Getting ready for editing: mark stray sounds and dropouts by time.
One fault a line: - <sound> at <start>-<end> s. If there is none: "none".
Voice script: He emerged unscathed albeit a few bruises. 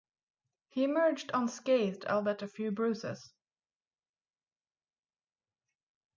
none